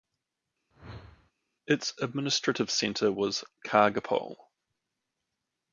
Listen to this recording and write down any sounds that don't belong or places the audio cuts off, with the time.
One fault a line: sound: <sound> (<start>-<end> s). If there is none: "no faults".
sound: whoosh (0.7-1.3 s)